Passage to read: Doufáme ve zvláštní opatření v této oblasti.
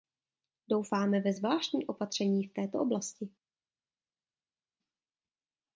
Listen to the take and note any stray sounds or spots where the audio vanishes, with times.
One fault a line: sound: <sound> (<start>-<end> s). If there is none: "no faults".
no faults